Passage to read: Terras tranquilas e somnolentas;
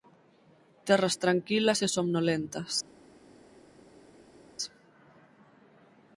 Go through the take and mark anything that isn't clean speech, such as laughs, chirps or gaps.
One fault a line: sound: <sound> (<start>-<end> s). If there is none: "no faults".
no faults